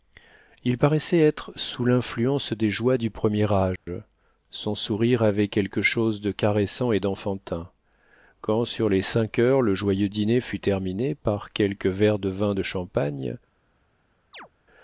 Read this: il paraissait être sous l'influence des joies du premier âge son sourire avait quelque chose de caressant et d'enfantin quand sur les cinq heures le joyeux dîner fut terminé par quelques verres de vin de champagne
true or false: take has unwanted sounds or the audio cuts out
true